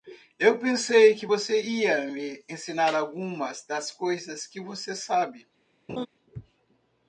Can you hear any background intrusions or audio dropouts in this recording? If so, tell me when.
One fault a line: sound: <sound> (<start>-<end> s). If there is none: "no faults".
sound: laugh (5.9-6.1 s)